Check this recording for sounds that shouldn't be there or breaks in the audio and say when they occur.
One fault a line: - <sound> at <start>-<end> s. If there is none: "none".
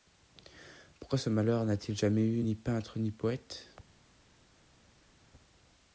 none